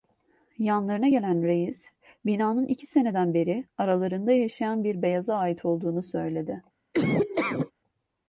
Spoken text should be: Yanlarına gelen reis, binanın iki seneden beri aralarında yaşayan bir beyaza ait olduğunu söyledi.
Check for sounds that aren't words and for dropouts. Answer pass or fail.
fail